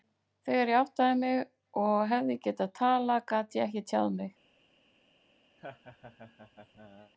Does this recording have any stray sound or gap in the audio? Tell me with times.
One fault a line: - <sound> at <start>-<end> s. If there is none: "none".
- laugh at 5.6-7.1 s